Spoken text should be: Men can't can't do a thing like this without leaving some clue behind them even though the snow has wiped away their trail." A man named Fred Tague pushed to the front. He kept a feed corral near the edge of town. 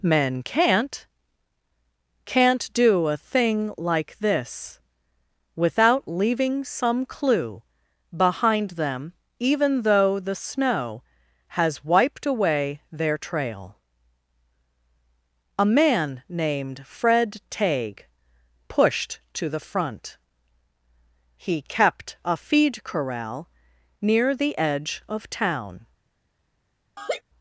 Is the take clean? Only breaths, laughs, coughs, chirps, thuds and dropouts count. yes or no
no